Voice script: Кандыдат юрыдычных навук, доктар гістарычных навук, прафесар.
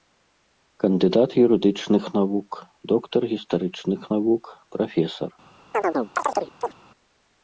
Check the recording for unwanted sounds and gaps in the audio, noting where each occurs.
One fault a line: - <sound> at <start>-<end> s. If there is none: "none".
- chirp at 5.7-6.7 s